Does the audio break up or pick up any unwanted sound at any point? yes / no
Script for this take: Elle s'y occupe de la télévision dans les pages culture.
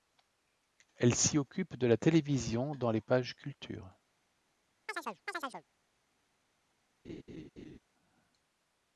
yes